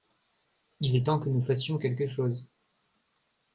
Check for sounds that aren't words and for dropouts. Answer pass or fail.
pass